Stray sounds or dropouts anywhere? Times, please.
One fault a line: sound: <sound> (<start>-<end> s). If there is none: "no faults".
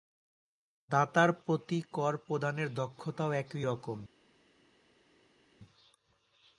no faults